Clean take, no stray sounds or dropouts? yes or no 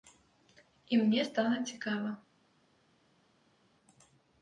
yes